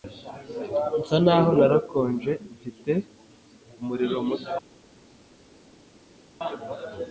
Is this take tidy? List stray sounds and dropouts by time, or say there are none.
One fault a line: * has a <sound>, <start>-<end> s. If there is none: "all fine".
all fine